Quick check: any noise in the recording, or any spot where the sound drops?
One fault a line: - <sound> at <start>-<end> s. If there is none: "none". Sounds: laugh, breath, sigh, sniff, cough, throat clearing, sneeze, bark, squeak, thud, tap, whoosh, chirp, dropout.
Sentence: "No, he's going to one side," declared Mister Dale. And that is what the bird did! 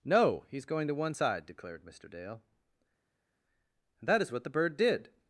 none